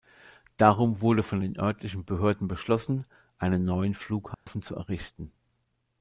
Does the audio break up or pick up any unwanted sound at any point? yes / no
yes